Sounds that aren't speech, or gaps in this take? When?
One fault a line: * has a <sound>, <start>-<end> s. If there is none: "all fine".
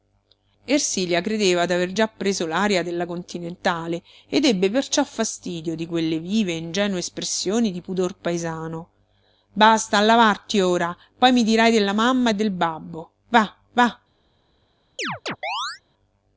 * has a chirp, 15.0-15.8 s